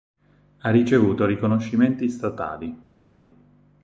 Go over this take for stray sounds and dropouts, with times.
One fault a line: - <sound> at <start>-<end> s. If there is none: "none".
none